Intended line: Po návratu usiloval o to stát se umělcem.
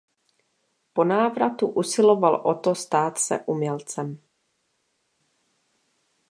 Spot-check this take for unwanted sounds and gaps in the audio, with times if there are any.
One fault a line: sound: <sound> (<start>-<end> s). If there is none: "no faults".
no faults